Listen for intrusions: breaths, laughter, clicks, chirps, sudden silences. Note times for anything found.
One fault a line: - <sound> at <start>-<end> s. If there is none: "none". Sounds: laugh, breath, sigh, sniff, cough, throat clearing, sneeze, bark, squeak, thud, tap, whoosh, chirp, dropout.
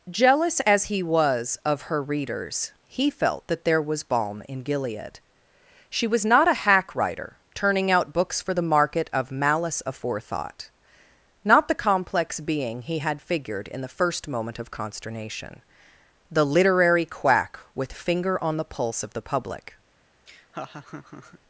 - laugh at 20.3-21.4 s